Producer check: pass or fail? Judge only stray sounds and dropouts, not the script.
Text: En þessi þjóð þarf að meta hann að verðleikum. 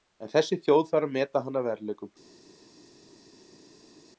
pass